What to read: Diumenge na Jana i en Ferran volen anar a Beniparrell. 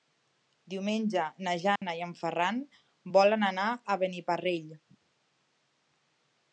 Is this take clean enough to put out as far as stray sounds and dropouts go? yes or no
no